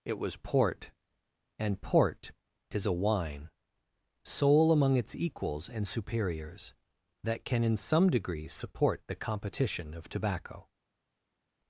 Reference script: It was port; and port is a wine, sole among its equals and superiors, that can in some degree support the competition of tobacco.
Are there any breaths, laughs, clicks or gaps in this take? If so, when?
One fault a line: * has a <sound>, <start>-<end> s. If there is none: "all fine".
all fine